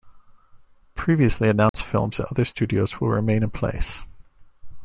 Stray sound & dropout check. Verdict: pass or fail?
fail